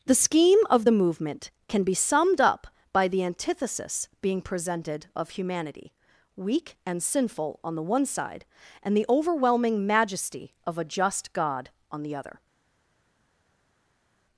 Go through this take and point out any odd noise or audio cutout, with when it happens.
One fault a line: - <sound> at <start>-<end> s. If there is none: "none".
none